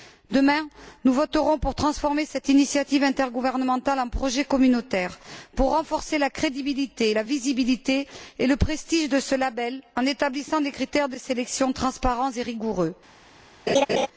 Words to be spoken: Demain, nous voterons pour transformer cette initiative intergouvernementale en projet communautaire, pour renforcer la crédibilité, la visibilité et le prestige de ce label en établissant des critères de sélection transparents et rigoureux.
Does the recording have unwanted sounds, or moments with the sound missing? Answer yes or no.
yes